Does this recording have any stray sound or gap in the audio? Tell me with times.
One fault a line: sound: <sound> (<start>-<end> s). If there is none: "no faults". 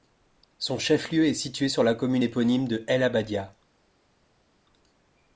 no faults